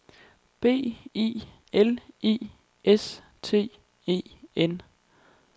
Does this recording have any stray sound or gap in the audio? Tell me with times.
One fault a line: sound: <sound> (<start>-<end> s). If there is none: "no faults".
no faults